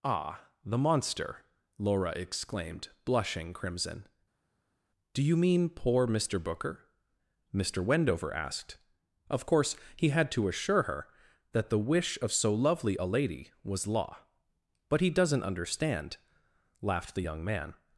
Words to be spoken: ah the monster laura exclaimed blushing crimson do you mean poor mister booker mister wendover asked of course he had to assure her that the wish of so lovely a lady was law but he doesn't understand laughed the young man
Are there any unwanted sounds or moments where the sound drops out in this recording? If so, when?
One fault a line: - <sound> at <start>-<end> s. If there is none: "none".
none